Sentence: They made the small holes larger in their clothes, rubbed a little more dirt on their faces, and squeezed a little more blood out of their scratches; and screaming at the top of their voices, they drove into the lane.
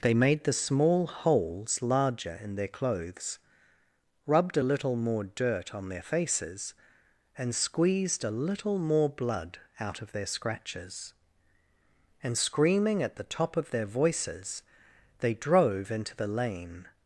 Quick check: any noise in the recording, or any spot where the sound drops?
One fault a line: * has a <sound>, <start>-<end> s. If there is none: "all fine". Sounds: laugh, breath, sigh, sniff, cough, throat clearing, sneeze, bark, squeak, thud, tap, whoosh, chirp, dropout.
all fine